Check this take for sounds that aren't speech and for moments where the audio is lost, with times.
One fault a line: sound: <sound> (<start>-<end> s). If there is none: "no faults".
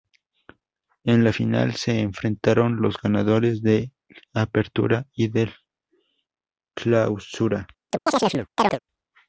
sound: chirp (7.9-8.8 s)